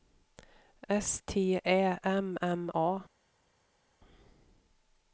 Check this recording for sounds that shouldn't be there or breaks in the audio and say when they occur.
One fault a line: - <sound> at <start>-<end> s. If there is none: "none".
none